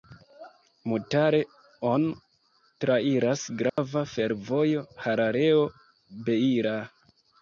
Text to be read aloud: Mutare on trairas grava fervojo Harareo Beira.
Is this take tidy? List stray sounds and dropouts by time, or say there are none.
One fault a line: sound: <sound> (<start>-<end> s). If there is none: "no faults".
sound: dropout (3.7-3.8 s)